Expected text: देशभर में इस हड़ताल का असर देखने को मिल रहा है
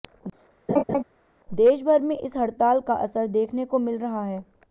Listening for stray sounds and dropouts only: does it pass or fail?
fail